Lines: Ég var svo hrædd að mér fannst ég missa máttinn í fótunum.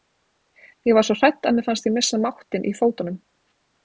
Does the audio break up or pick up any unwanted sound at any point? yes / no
no